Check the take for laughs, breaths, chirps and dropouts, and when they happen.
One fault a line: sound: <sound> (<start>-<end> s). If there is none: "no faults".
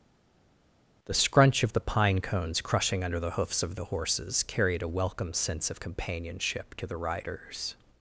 no faults